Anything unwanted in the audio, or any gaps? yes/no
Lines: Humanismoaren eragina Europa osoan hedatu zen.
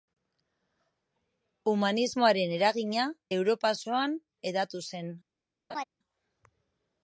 yes